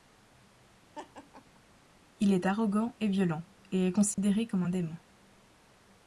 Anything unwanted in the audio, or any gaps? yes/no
yes